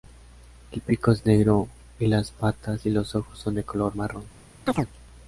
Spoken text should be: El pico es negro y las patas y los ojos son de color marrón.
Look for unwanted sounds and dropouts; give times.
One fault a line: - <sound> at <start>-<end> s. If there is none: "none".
- chirp at 4.7-4.9 s